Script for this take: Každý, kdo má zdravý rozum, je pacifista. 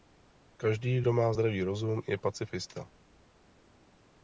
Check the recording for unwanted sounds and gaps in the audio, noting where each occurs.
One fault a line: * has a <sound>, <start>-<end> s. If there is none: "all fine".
all fine